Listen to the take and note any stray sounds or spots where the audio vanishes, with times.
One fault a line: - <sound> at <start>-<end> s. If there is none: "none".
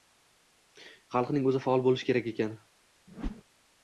- whoosh at 3.1-3.4 s